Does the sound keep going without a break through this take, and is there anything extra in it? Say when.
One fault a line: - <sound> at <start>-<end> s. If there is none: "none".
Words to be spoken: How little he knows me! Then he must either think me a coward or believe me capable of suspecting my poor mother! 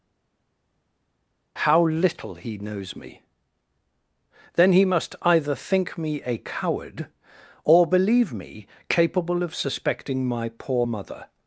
none